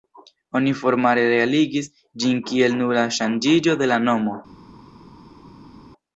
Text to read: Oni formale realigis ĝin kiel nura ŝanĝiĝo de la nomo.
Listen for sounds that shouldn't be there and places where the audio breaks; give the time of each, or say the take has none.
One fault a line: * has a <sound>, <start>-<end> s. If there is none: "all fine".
all fine